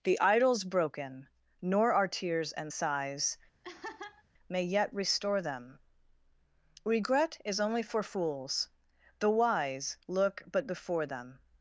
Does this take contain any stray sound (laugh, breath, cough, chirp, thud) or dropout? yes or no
yes